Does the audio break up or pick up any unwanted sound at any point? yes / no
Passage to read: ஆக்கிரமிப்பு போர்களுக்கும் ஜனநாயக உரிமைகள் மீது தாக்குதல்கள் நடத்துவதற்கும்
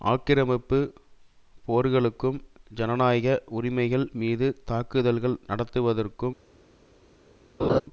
yes